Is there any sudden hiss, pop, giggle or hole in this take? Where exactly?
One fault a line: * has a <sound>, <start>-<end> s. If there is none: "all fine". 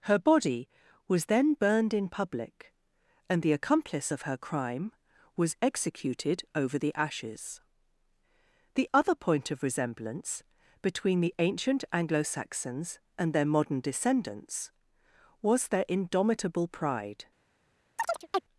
* has a chirp, 18.0-18.4 s